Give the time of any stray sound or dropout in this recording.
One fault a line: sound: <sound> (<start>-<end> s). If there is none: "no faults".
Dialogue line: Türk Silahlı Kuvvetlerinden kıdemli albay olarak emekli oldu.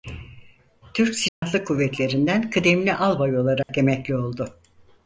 sound: dropout (1.3-1.4 s)
sound: dropout (3.6-3.7 s)